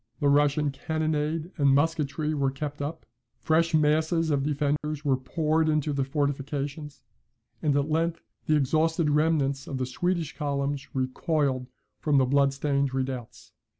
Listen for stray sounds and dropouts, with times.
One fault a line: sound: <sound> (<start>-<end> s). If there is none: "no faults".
sound: dropout (4.8-4.8 s)